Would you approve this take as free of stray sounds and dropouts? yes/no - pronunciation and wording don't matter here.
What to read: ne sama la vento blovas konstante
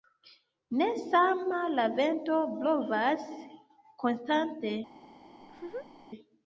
no